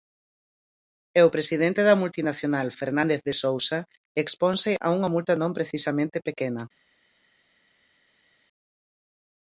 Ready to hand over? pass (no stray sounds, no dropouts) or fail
pass